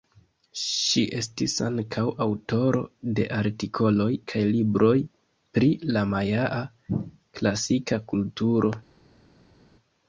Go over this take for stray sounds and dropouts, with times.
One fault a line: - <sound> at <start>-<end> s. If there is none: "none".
none